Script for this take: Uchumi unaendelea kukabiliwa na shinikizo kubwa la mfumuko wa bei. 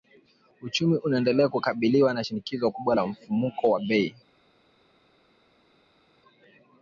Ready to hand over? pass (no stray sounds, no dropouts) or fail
pass